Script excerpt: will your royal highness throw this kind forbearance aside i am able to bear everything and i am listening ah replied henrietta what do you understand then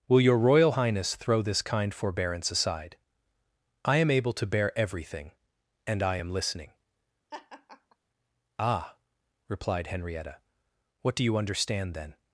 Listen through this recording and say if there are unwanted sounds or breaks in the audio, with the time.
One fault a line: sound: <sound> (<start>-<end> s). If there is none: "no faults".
sound: laugh (7.3-8.0 s)